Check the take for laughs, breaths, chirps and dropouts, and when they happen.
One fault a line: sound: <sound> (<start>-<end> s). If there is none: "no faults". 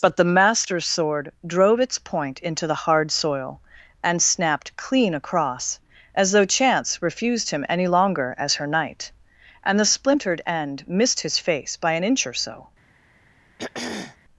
sound: throat clearing (13.6-14.2 s)